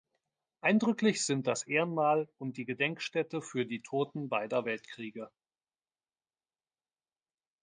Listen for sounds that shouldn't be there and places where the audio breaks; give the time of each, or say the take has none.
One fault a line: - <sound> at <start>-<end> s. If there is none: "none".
none